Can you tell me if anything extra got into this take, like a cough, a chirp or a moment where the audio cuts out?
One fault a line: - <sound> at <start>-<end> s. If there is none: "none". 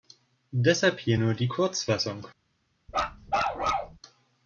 - bark at 2.9-4.0 s